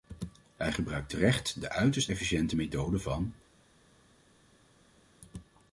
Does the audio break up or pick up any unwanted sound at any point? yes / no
no